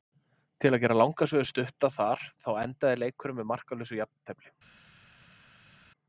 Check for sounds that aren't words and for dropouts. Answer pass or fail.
pass